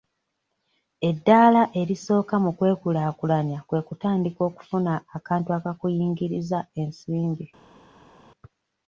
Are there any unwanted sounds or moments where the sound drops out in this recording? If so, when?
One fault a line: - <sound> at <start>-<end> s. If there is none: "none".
none